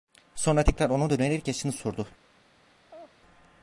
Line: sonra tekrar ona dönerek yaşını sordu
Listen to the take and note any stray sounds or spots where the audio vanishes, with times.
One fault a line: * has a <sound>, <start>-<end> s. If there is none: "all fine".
* has a laugh, 2.9-3.2 s